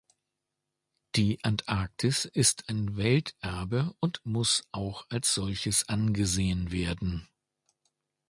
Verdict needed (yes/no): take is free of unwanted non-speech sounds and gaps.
yes